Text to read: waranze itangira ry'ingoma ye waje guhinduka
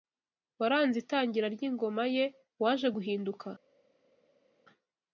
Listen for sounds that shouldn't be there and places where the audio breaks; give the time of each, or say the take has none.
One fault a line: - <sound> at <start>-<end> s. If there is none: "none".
none